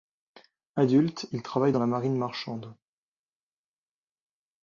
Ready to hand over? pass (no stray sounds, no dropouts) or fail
pass